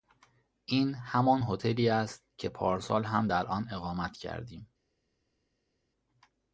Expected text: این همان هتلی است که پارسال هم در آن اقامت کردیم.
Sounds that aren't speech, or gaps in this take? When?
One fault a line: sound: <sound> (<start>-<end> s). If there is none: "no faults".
no faults